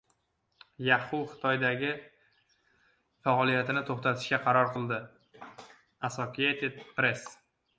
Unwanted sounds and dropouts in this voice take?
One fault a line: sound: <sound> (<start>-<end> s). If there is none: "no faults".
no faults